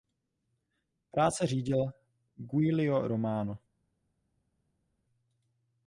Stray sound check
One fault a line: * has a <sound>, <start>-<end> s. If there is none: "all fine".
all fine